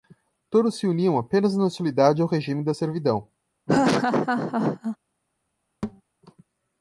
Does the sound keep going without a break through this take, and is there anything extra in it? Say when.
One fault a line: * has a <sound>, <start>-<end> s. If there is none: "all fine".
* has a laugh, 3.7-5.0 s
* has a thud, 5.8-6.0 s